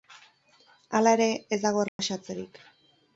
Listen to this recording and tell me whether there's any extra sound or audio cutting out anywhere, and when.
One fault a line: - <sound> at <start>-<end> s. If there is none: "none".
- dropout at 1.9-2.0 s